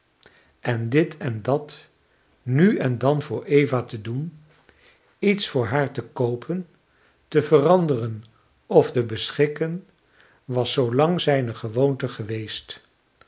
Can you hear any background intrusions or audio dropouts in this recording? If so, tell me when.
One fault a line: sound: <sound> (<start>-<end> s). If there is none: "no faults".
no faults